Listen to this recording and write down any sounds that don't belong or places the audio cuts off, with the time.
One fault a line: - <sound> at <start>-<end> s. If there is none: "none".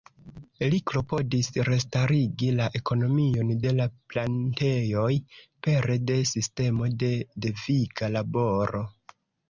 none